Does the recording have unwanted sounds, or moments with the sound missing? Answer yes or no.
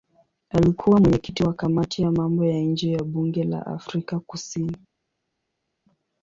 no